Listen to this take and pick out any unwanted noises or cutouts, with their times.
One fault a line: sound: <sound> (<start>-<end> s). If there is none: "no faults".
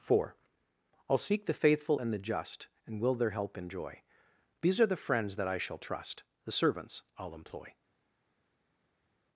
no faults